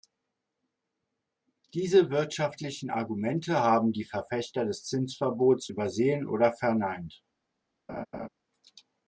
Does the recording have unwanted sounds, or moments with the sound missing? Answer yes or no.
yes